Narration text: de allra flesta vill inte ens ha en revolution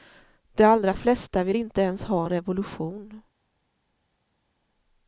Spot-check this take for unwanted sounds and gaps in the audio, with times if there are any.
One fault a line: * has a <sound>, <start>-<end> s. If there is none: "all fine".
all fine